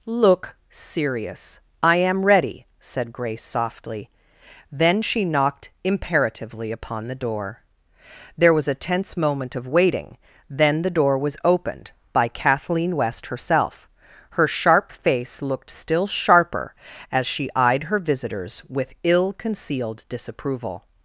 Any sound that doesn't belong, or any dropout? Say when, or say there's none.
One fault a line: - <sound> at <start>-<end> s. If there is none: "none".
none